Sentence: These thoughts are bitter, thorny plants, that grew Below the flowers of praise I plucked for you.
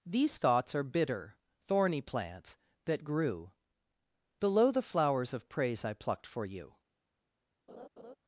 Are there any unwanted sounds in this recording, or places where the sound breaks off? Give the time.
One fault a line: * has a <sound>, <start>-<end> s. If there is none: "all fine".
* has a laugh, 7.7-8.2 s